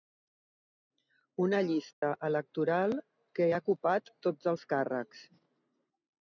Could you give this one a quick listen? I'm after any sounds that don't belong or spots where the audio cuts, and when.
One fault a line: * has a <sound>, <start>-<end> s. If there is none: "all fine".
* has a dropout, 1.9-2.0 s